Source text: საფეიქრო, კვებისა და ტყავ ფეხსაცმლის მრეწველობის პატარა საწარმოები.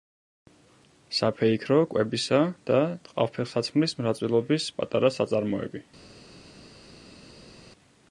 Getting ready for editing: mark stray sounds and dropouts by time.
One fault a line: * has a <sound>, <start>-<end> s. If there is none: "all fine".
all fine